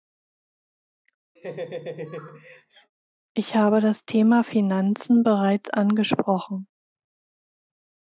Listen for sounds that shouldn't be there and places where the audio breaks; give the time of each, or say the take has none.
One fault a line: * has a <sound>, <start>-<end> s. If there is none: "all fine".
* has a laugh, 1.4-2.9 s